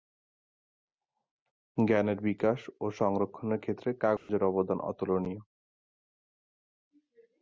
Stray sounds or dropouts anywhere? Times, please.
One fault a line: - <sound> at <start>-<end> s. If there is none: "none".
- dropout at 4.2-4.3 s